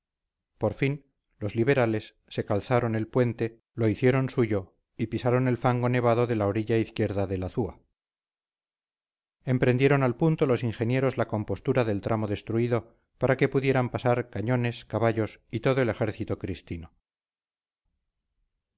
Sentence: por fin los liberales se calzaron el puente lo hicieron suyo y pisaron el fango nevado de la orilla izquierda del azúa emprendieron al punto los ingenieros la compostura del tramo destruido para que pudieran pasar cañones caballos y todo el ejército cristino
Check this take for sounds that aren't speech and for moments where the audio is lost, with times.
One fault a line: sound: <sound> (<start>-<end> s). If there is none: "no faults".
no faults